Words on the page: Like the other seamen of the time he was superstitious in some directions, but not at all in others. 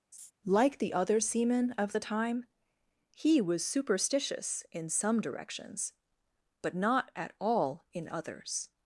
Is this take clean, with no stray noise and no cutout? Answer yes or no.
no